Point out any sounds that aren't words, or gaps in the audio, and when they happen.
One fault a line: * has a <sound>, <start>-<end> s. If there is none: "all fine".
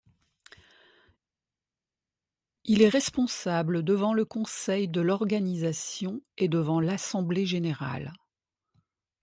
all fine